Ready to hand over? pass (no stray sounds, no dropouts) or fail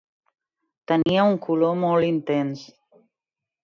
fail